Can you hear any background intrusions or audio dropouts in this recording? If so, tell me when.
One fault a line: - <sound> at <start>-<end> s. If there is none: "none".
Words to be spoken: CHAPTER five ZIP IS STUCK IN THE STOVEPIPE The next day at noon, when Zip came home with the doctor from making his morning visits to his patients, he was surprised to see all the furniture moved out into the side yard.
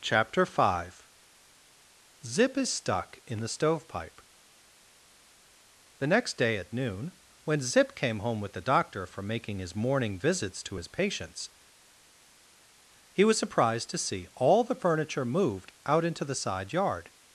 none